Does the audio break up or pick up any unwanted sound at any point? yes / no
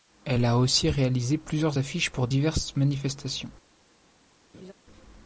yes